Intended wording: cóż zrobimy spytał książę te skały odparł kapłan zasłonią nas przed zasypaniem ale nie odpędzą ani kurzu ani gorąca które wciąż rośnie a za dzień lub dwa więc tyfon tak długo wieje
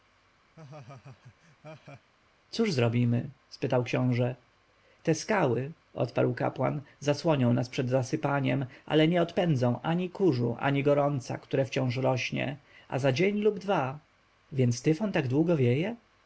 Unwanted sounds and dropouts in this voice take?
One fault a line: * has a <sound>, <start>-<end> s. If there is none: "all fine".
* has a laugh, 0.6-2.1 s